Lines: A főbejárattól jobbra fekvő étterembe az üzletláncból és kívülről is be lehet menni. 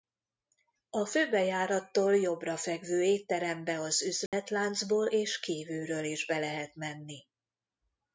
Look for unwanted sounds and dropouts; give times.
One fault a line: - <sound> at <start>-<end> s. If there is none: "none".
- dropout at 4.3-4.3 s